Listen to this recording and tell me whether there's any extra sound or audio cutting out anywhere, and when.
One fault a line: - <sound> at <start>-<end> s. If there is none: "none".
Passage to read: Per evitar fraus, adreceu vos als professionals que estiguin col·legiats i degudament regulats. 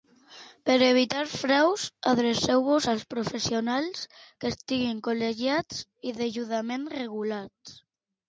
none